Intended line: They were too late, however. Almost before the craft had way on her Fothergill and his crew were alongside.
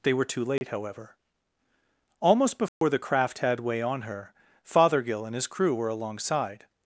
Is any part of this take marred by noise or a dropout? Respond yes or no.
yes